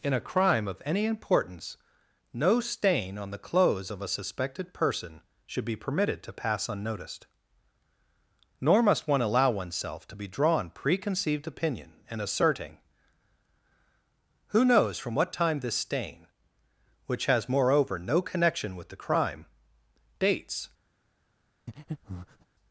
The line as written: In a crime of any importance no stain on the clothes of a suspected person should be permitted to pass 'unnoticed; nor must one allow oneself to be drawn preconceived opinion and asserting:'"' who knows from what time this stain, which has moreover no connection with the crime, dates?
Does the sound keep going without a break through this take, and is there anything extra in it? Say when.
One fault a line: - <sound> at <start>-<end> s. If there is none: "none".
- breath at 21.7-22.5 s